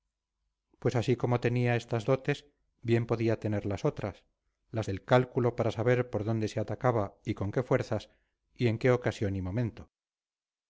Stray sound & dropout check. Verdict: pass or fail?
pass